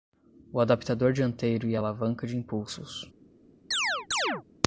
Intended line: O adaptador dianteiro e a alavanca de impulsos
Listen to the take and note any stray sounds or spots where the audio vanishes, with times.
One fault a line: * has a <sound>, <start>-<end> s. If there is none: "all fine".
* has a chirp, 3.7-4.4 s